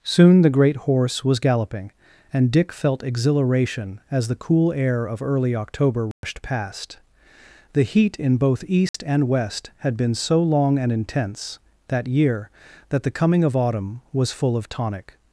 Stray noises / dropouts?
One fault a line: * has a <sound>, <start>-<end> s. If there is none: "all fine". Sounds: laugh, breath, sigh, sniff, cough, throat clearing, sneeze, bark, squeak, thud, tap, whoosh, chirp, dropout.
* has a dropout, 6.1-6.2 s
* has a dropout, 8.9-8.9 s